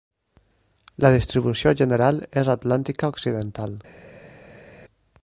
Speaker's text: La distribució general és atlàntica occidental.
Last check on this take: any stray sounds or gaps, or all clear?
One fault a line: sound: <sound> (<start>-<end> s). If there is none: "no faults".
no faults